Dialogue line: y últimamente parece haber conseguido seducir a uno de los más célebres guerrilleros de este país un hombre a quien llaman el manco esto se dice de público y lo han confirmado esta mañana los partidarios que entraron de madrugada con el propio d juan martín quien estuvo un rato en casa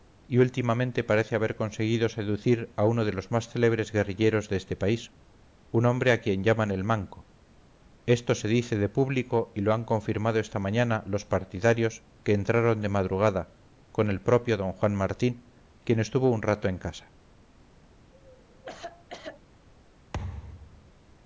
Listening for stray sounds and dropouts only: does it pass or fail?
fail